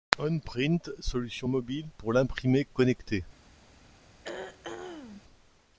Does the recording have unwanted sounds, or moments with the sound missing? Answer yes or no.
yes